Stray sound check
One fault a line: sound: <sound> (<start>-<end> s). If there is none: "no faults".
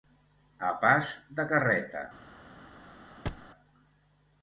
sound: thud (3.3-3.5 s)